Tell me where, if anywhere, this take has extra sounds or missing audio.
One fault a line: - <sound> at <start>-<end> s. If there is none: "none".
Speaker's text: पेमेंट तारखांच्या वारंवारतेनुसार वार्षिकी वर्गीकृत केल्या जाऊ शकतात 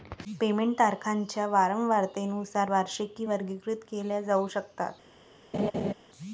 - laugh at 5.5-5.9 s